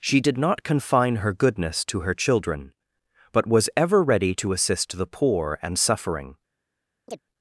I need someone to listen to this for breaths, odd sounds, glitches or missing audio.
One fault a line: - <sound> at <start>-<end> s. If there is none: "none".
- chirp at 7.1-7.2 s